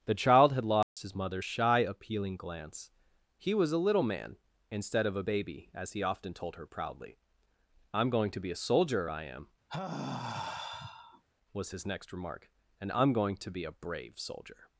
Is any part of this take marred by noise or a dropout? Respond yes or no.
yes